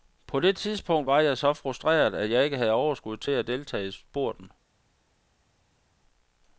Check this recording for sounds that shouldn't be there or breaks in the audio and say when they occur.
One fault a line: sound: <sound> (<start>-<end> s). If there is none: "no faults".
no faults